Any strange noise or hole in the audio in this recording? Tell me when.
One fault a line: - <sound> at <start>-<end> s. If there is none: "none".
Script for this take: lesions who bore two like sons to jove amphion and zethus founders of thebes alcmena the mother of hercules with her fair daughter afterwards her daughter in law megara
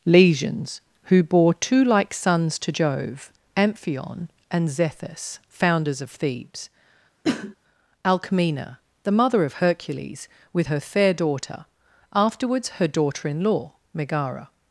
- cough at 7.2-7.6 s